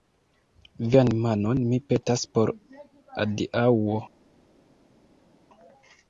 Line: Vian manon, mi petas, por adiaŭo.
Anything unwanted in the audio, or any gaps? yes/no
no